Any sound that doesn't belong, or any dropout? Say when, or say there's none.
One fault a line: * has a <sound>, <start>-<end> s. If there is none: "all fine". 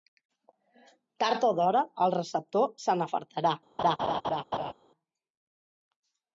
* has a laugh, 3.8-4.7 s